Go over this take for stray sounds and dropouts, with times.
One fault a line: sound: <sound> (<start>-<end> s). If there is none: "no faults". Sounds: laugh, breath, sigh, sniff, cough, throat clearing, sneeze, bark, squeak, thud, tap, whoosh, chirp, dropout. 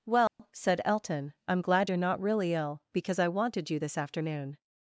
sound: dropout (0.3-0.4 s)